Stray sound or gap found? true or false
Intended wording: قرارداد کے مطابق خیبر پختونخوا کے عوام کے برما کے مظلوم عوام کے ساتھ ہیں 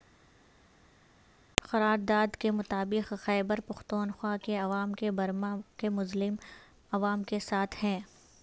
false